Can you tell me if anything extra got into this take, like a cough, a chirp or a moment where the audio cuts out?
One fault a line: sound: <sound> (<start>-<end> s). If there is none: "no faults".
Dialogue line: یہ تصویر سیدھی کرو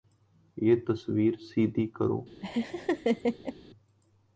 sound: laugh (2.4-3.6 s)